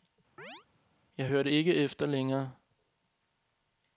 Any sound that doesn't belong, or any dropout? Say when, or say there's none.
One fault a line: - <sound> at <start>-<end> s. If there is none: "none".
- chirp at 0.4-0.7 s